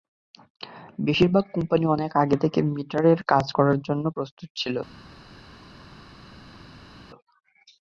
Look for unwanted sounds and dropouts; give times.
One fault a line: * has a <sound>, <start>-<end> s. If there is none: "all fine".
all fine